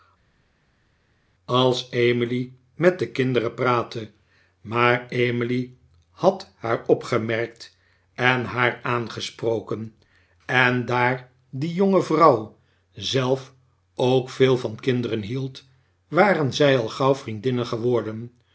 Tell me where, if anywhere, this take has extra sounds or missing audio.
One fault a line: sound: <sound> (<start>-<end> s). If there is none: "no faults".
no faults